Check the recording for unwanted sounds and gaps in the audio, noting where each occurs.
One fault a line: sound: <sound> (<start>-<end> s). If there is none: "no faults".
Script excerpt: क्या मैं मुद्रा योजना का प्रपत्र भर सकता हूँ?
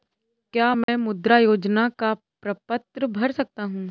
sound: dropout (0.8-0.9 s)